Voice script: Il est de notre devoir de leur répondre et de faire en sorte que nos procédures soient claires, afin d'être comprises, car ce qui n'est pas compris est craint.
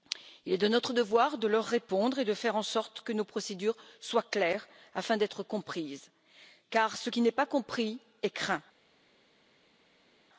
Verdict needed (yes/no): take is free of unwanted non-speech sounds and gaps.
yes